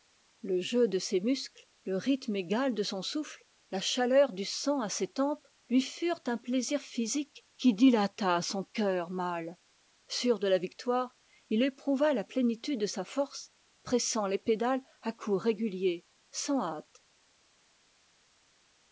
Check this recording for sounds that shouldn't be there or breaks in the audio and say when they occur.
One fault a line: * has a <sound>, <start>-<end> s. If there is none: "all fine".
all fine